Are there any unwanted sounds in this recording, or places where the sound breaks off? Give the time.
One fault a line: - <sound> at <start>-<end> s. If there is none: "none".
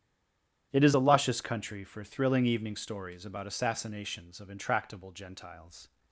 none